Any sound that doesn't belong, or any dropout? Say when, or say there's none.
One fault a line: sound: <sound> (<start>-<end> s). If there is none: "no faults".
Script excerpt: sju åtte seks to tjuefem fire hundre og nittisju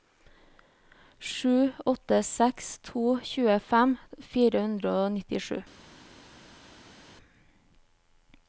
no faults